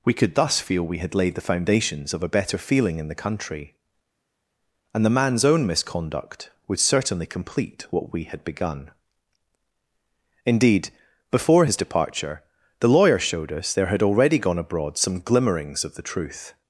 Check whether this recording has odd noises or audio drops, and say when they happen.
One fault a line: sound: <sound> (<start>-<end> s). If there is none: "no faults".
no faults